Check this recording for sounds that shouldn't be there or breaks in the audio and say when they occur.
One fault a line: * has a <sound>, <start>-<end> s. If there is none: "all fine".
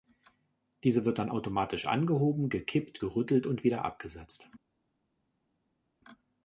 all fine